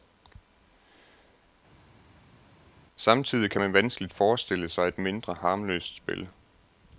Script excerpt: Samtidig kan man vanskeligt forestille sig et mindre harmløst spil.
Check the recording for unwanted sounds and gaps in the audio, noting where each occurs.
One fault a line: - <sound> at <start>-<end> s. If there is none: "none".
none